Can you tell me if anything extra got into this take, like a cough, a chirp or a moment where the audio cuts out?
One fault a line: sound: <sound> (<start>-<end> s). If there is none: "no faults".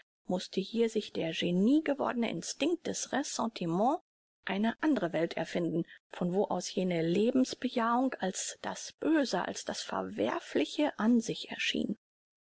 no faults